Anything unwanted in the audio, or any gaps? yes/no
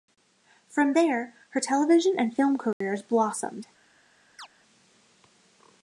yes